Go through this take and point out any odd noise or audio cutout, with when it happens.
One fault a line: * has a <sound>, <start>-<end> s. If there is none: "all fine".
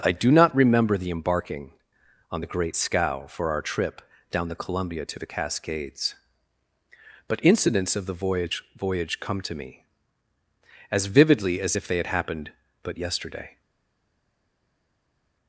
all fine